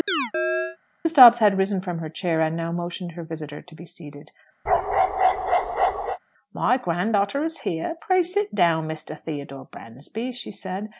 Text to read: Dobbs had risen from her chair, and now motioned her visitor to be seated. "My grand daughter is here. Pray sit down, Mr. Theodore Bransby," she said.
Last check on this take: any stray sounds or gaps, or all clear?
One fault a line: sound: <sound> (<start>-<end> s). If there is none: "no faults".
sound: chirp (0.1-0.8 s)
sound: bark (4.7-6.2 s)